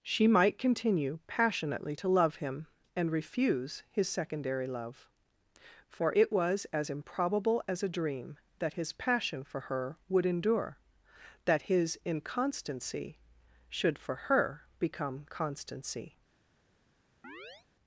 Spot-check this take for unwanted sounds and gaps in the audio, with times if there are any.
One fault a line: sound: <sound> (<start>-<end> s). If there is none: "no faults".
sound: chirp (17.2-17.7 s)